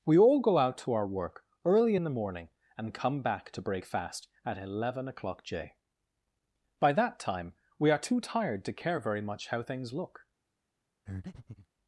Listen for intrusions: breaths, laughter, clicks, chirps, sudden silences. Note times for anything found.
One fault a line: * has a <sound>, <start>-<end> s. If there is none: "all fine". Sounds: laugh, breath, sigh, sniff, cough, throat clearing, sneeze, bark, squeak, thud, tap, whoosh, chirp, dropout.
* has a breath, 11.1-11.7 s